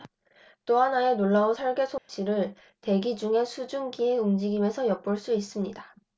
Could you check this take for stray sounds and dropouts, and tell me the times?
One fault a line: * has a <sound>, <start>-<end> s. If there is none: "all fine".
* has a dropout, 2.0-2.1 s